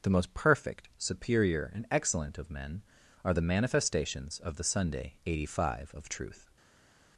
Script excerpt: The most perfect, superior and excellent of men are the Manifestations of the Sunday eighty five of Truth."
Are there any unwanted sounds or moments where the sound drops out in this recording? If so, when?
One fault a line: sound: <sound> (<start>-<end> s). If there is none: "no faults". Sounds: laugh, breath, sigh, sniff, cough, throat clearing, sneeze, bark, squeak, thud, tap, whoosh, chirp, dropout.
no faults